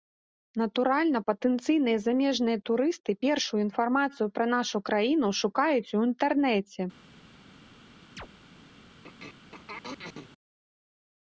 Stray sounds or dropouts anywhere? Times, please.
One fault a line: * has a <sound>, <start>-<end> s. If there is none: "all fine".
* has a chirp, 8.2-8.3 s
* has a throat clearing, 9.0-10.3 s